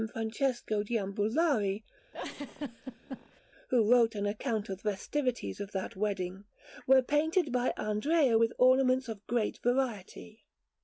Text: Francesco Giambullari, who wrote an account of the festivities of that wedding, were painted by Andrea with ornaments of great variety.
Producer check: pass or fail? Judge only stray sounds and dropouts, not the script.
fail